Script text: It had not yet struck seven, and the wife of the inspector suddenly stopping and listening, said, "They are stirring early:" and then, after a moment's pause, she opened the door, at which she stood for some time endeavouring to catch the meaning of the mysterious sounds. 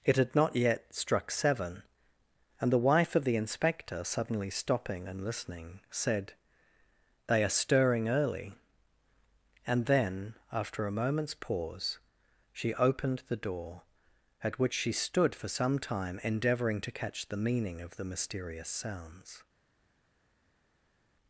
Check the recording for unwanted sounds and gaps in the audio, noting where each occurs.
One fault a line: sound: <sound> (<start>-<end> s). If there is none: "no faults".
no faults